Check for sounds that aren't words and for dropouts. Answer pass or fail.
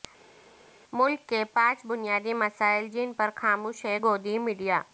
pass